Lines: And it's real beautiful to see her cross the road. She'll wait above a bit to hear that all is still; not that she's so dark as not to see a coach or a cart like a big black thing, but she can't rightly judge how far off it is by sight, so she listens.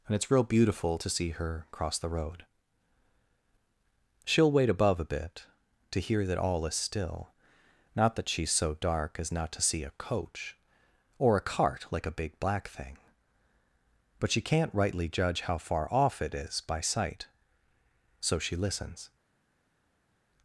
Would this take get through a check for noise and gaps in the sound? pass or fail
pass